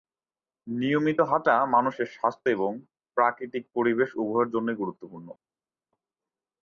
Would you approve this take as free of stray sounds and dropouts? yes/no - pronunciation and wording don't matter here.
yes